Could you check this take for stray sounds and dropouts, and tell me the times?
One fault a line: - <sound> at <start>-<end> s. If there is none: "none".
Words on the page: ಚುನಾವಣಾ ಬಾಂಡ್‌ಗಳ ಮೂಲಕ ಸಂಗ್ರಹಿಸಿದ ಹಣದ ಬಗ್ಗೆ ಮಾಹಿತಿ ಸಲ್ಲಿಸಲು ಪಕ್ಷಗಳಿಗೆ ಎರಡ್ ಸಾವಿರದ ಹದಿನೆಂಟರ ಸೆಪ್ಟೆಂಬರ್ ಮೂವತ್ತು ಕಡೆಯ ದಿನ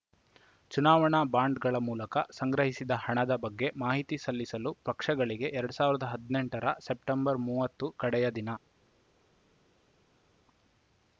none